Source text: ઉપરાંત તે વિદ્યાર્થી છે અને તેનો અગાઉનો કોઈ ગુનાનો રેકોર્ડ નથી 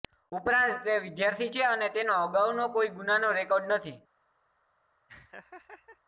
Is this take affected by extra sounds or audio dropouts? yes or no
yes